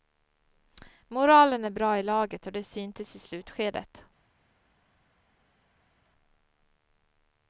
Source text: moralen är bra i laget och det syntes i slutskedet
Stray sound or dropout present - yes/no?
no